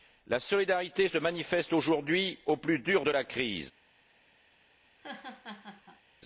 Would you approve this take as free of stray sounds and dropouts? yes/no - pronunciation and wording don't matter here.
no